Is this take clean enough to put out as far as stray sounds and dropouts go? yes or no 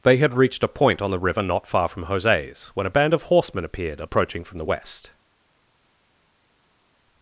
yes